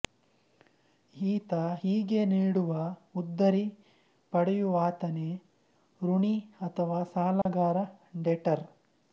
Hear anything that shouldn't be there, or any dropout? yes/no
yes